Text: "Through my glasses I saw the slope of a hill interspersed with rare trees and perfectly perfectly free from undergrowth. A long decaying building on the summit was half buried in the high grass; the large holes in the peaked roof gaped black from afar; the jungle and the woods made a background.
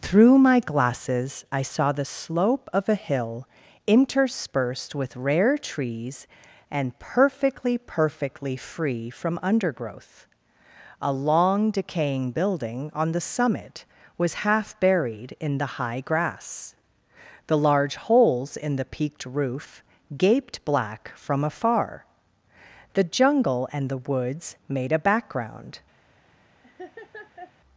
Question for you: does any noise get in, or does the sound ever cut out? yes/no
yes